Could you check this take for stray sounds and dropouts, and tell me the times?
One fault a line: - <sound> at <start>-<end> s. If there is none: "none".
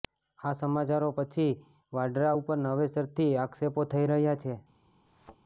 - thud at 5.1-5.4 s